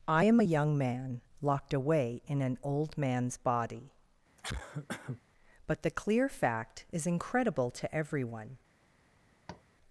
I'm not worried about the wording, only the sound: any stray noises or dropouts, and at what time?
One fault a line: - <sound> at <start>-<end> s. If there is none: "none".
- cough at 4.4-5.2 s
- tap at 9.5-9.6 s